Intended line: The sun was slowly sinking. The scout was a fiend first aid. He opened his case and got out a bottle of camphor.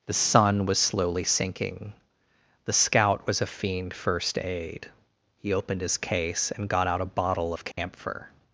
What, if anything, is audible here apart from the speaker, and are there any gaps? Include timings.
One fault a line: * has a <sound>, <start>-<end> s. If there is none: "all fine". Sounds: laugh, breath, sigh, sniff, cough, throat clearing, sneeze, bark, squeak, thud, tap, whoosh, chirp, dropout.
* has a dropout, 7.7-7.8 s